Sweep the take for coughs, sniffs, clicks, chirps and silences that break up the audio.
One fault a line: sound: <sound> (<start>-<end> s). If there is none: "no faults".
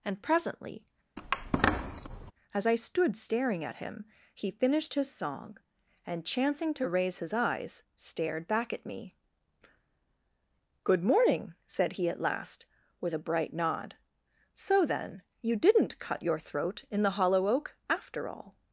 sound: squeak (1.2-2.3 s)